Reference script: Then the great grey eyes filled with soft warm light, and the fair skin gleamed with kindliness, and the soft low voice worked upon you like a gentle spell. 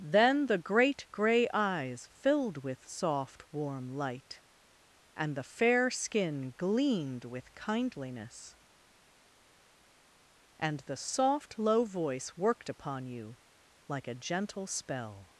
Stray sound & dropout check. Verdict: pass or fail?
pass